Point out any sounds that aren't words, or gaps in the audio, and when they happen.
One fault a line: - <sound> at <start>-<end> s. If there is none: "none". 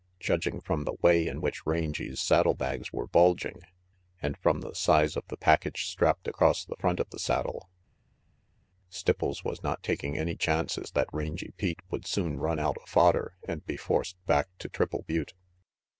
none